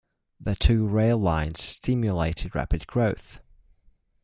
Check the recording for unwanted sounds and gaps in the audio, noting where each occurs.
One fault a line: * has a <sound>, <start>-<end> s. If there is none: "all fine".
all fine